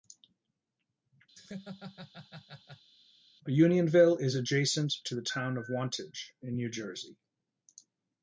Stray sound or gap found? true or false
true